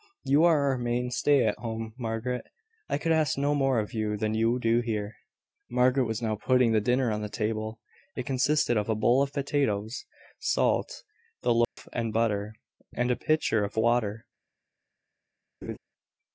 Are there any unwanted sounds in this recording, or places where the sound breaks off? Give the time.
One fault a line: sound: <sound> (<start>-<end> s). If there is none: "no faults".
sound: dropout (11.6-11.8 s)
sound: laugh (15.6-15.8 s)